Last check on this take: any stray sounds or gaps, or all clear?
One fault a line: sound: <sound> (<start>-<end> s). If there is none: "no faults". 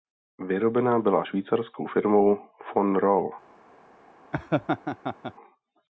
sound: laugh (4.3-5.3 s)